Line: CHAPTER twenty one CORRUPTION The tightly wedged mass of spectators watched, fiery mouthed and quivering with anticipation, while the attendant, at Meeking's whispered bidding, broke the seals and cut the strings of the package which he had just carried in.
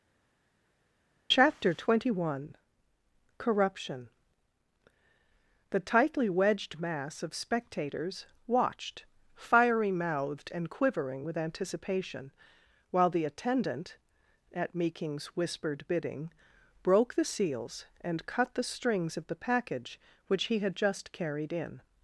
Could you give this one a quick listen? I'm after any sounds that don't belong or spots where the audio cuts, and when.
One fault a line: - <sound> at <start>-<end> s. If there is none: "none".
none